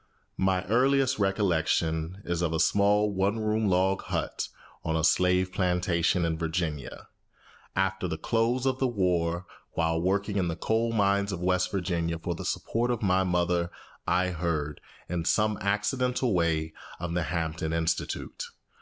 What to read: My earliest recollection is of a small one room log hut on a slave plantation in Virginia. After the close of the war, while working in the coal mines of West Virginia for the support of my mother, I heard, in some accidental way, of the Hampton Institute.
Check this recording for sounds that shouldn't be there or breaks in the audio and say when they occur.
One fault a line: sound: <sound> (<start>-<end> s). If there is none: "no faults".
no faults